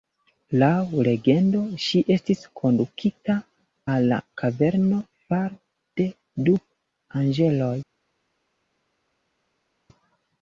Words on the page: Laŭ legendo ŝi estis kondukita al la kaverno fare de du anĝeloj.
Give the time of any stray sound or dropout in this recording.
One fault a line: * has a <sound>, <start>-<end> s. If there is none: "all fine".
all fine